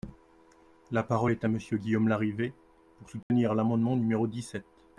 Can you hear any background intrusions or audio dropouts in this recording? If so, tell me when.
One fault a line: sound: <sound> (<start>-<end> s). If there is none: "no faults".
sound: dropout (3.2-3.3 s)